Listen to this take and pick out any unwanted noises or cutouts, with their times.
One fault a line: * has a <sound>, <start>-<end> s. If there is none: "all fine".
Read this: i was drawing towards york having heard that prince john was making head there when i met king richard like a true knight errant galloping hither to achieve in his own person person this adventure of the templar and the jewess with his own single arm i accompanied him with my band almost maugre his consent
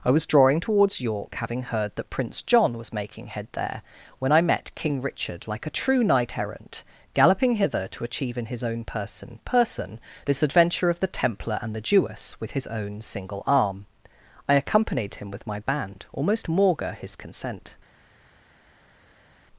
all fine